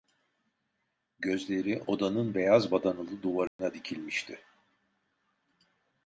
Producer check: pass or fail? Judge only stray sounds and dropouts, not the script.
fail